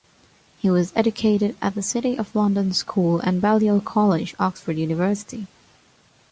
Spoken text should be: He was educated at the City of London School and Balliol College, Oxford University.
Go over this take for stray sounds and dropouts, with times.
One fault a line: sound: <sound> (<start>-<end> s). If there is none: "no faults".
no faults